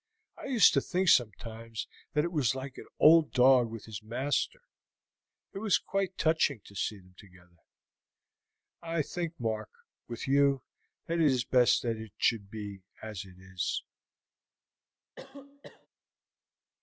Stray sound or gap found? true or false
true